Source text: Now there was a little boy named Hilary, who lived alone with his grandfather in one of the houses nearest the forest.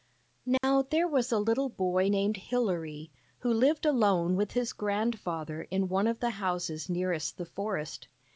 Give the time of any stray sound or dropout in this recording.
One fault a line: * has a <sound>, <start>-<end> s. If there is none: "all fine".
* has a dropout, 0.6-0.6 s